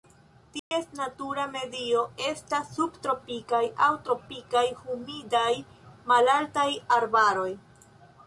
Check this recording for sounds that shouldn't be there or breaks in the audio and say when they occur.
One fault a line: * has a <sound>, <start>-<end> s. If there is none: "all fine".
* has a dropout, 0.6-0.7 s